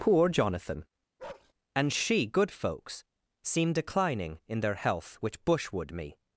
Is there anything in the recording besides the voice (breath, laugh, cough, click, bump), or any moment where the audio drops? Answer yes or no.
yes